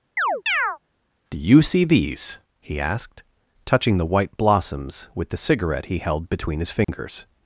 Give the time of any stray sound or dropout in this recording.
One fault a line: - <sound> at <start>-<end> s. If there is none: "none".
- chirp at 0.2-0.8 s
- dropout at 6.8-6.9 s